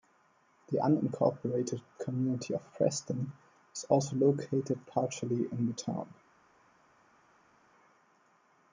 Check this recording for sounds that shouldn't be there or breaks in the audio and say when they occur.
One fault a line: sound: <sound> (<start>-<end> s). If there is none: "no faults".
no faults